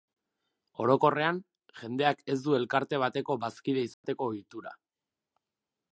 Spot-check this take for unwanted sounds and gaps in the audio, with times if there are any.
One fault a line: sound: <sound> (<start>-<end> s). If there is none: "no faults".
sound: dropout (3.9-4.0 s)